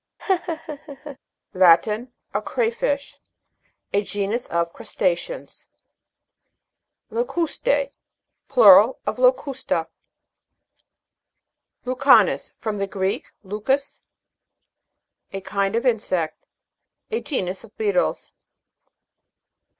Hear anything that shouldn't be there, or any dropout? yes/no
yes